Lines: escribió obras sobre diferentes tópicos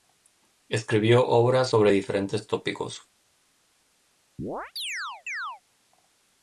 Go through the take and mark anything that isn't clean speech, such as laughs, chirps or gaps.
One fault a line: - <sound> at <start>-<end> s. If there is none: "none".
- chirp at 4.4-5.6 s